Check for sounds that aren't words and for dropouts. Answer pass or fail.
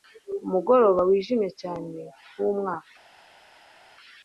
pass